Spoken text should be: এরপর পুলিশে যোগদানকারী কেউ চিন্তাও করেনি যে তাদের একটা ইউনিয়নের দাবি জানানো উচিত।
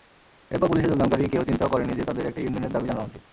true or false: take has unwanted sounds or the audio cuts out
false